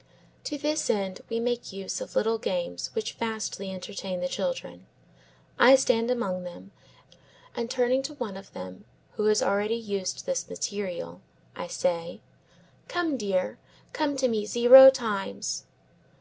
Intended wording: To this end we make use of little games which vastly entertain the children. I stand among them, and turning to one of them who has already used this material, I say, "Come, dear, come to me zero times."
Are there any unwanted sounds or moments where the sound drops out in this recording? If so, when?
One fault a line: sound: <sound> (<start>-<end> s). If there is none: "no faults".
no faults